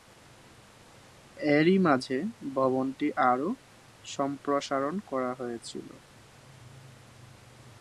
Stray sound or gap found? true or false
false